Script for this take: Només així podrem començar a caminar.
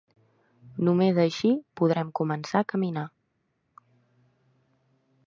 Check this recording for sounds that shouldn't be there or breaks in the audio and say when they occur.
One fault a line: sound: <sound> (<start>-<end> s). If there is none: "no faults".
no faults